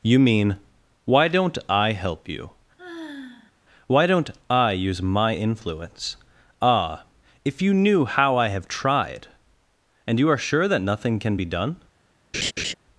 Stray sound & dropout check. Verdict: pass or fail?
fail